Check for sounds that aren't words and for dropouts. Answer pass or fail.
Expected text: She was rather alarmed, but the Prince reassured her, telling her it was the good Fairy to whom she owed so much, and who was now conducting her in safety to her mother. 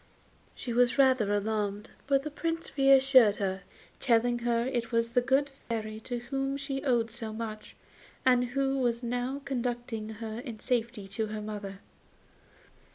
fail